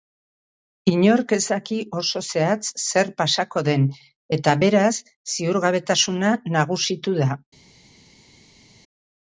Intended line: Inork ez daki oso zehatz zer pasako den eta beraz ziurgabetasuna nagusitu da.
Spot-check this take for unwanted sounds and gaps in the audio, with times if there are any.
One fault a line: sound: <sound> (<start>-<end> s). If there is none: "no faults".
no faults